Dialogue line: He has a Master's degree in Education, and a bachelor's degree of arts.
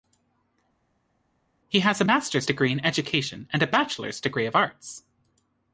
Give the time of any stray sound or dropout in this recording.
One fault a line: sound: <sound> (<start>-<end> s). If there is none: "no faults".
no faults